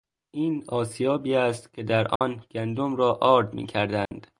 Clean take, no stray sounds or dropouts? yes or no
no